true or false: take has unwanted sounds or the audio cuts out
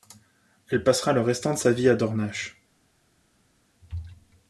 false